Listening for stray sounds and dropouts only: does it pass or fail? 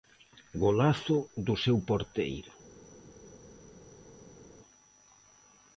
pass